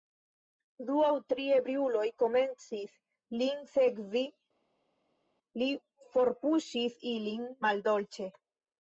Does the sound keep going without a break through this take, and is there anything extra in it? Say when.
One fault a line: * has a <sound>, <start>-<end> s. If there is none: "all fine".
all fine